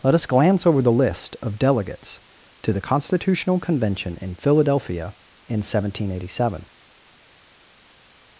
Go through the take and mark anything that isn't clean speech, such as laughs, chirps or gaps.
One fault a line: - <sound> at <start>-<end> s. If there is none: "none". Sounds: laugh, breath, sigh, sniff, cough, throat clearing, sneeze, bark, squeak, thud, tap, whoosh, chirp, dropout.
none